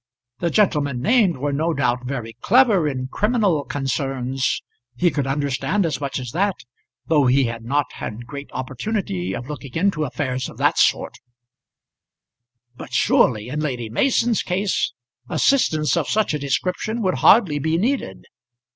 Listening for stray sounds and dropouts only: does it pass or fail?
pass